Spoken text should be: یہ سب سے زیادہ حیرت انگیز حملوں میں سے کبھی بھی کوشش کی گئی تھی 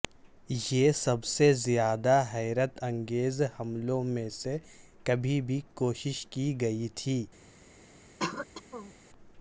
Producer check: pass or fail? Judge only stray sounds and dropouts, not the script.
fail